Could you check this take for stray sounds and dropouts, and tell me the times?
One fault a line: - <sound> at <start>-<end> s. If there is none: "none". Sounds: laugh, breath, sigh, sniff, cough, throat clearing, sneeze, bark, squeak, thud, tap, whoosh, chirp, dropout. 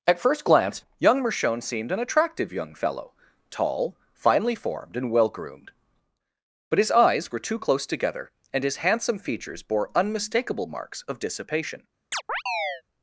- chirp at 12.1-12.8 s